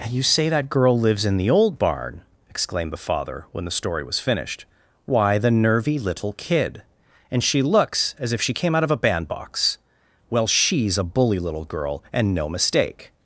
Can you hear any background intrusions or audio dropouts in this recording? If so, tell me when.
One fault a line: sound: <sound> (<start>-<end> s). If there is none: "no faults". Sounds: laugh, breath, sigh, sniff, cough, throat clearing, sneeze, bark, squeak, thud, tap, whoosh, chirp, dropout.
no faults